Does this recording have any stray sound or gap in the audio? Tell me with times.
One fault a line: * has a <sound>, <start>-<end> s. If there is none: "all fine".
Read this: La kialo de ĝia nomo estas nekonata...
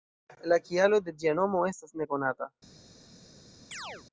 * has a chirp, 3.7-4.1 s